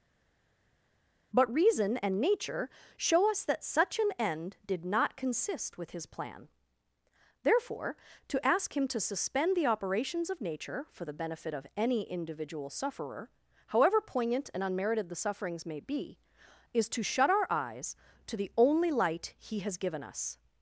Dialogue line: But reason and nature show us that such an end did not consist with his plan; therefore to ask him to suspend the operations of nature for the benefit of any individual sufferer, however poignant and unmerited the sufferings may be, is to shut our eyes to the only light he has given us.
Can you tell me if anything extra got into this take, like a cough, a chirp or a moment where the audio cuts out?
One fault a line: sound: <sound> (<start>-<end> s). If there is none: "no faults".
no faults